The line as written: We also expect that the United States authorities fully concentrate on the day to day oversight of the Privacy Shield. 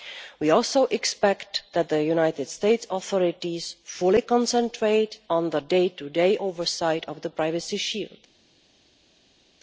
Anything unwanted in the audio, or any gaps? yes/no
no